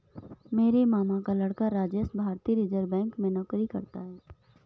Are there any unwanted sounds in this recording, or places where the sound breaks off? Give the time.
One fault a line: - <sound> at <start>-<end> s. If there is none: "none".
none